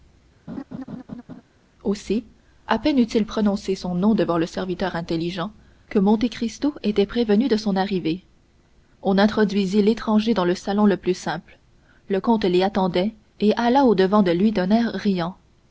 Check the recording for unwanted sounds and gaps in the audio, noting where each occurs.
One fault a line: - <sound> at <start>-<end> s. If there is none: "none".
- laugh at 0.5-1.4 s